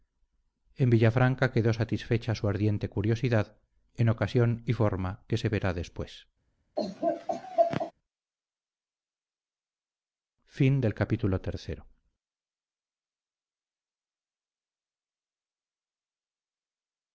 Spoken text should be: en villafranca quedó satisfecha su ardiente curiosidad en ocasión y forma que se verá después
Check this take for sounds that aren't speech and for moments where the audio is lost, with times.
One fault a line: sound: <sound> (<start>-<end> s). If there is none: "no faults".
sound: laugh (6.8-7.9 s)